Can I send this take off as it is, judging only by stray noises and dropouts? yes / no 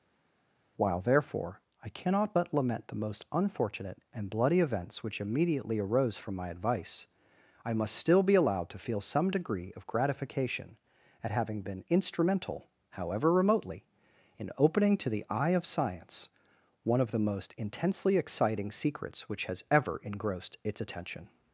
yes